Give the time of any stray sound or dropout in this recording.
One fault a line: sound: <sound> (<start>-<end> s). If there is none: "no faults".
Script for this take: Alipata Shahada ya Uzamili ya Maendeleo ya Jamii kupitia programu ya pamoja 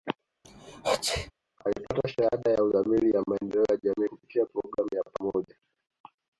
sound: sneeze (0.4-1.3 s)